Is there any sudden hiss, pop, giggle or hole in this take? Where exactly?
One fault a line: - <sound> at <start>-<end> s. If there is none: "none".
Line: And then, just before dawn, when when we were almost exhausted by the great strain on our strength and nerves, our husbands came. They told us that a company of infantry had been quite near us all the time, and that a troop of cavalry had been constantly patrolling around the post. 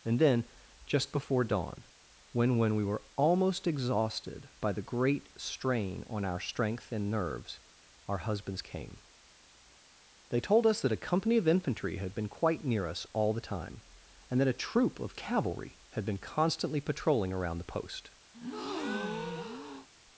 - breath at 18.3-19.9 s